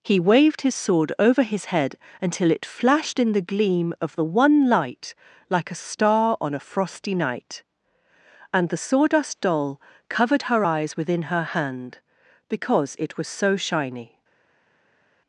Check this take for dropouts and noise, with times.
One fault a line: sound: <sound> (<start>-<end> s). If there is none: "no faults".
no faults